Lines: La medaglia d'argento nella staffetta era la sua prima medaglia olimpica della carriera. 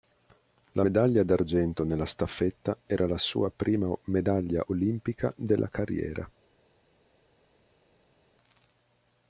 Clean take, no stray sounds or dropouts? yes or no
yes